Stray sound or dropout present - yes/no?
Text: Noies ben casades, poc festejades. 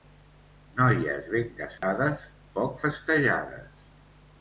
yes